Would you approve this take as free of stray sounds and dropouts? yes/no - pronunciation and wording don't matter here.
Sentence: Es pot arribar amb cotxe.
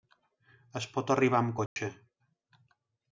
no